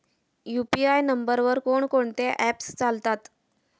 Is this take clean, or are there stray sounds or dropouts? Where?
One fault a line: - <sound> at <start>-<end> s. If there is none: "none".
none